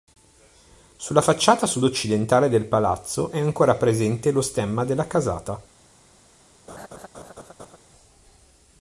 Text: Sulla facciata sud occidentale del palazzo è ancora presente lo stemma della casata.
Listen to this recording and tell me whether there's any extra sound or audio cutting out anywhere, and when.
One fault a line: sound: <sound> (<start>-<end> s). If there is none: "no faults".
sound: laugh (6.7-7.8 s)